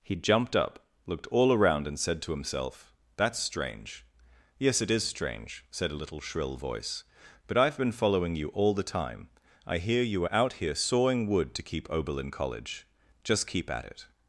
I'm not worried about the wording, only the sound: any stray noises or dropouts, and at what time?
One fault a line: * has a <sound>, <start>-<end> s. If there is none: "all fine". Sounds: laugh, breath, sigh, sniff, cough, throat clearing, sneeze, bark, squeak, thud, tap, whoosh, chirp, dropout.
all fine